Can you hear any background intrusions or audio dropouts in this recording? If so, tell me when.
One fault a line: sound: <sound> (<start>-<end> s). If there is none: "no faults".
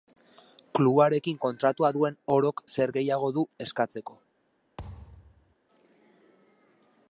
sound: thud (4.8-5.6 s)